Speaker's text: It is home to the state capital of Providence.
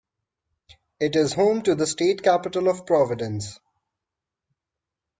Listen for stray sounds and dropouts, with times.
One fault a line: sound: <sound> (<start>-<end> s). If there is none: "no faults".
no faults